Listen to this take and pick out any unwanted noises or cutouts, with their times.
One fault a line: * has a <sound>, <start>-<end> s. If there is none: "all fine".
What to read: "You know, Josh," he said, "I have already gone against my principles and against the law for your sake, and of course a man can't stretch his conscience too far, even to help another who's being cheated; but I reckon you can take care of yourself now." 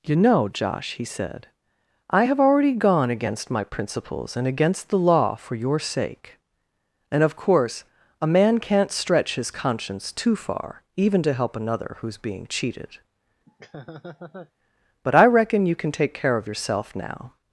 * has a laugh, 13.5-14.5 s